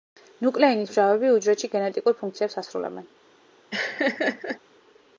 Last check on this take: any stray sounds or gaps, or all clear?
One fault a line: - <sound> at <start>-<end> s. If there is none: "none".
- laugh at 3.7-4.6 s